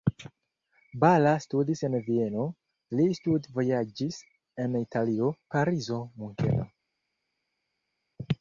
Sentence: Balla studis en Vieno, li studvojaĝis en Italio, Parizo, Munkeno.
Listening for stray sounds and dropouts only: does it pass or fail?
pass